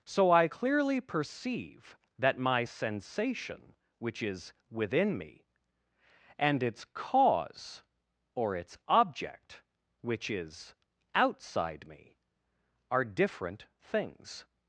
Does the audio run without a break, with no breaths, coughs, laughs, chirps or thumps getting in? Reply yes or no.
yes